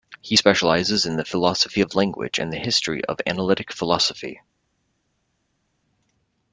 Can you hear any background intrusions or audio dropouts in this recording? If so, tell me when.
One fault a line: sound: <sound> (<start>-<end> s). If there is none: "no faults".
no faults